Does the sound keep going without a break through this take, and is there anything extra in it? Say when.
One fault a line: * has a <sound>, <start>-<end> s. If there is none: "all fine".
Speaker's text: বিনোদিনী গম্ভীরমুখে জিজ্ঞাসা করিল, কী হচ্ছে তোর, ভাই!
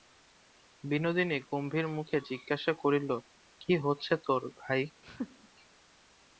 * has a laugh, 5.0-5.5 s